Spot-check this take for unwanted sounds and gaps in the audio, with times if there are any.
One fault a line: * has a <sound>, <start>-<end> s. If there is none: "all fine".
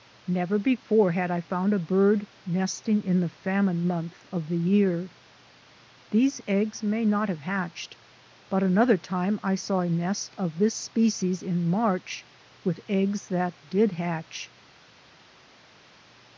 all fine